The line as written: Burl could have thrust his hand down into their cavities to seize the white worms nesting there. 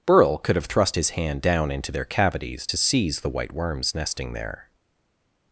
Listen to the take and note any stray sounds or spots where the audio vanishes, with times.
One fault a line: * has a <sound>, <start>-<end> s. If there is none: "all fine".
all fine